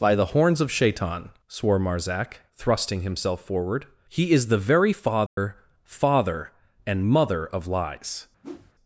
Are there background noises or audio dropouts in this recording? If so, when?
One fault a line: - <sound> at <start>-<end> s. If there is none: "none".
- dropout at 5.3-5.4 s
- whoosh at 8.4-8.7 s